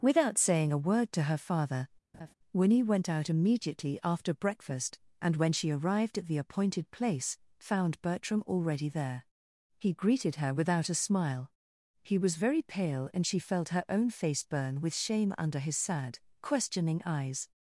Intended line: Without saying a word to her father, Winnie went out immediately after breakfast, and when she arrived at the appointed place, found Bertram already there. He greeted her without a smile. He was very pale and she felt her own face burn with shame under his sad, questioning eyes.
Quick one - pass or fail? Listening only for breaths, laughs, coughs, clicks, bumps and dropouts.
fail